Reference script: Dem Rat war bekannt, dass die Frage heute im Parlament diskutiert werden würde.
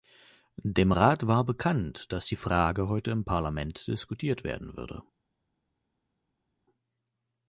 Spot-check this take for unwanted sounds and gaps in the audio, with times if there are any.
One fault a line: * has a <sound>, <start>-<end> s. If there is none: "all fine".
all fine